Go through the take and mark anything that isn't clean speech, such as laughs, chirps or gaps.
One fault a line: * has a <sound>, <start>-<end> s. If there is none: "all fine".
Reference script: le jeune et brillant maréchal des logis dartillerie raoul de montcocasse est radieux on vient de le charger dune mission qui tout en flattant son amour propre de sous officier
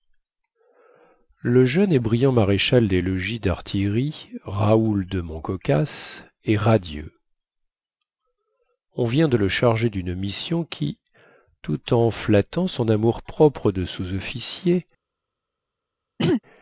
* has a throat clearing, 16.2-16.4 s